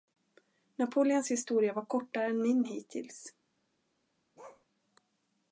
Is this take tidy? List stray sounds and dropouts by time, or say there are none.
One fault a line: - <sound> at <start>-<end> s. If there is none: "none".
- bark at 4.4-4.7 s